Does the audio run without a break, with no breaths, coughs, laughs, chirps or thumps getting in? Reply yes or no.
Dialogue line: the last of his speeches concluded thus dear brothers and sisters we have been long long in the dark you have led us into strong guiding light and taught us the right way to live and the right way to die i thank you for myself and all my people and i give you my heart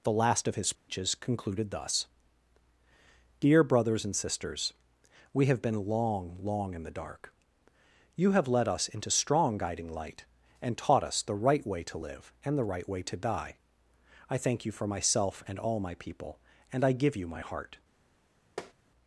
no